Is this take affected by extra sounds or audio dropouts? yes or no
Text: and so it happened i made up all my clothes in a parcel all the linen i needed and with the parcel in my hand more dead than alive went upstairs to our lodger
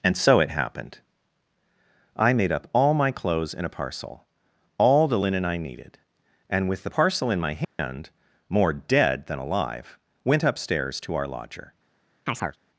yes